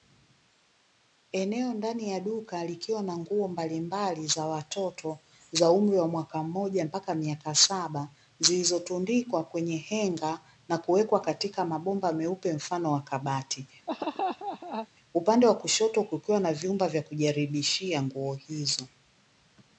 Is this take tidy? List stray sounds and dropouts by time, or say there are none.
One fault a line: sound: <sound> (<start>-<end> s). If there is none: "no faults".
sound: laugh (13.9-14.9 s)